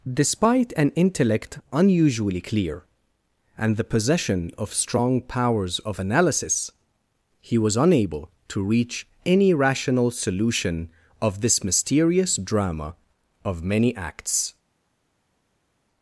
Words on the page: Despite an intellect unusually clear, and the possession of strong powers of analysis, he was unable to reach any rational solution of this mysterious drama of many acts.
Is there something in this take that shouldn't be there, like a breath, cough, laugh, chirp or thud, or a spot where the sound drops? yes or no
no